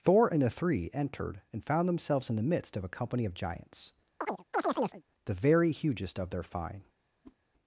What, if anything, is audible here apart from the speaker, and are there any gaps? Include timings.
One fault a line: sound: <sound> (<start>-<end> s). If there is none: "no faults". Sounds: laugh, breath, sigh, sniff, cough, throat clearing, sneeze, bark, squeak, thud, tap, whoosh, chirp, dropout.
sound: chirp (4.2-5.0 s)
sound: whoosh (7.2-7.4 s)